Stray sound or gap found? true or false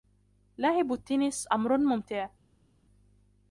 false